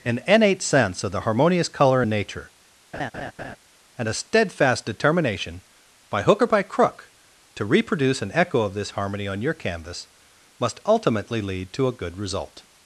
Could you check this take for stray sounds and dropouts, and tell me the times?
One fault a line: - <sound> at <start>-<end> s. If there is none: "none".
- laugh at 2.9-3.6 s